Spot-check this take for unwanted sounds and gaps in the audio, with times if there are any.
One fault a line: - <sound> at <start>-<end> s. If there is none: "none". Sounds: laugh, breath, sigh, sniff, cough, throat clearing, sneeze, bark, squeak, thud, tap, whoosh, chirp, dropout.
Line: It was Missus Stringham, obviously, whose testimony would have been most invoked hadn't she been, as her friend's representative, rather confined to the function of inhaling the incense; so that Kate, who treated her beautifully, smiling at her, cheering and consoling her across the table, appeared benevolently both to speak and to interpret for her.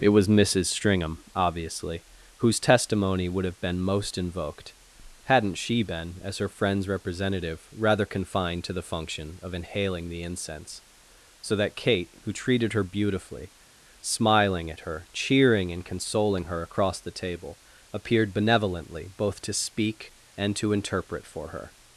none